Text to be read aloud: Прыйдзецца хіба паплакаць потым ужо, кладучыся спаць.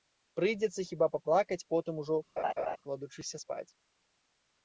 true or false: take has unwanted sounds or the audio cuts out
true